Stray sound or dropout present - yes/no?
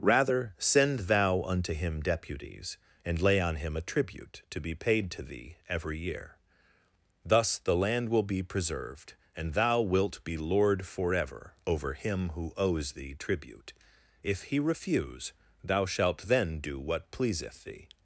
no